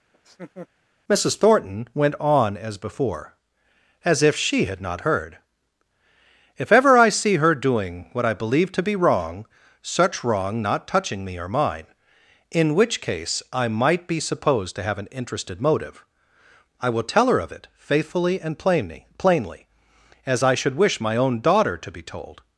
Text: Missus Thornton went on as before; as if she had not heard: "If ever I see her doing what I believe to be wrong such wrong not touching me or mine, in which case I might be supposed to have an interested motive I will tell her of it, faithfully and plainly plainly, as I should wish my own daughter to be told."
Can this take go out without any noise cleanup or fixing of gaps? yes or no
no